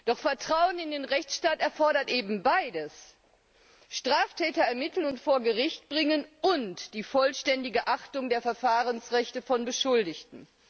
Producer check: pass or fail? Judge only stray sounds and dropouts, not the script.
pass